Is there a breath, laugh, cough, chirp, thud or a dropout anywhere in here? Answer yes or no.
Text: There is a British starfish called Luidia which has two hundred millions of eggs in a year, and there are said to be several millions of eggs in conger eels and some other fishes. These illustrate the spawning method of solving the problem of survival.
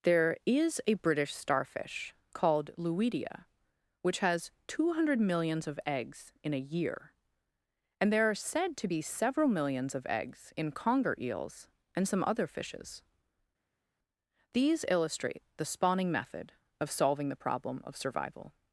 no